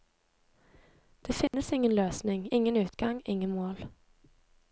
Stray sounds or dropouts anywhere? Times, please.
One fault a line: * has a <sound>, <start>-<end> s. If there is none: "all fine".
* has a dropout, 1.5-1.5 s